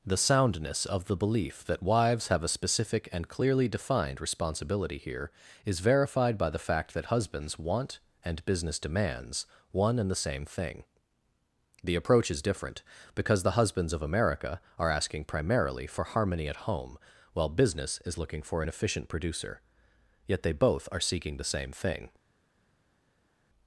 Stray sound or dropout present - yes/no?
no